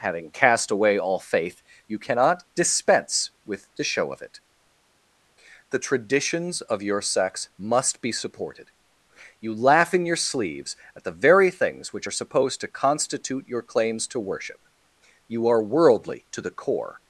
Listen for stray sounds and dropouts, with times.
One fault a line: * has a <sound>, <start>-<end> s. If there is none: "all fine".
all fine